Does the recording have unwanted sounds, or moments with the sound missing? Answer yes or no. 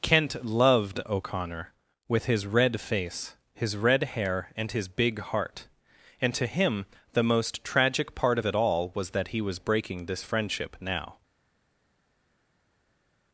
no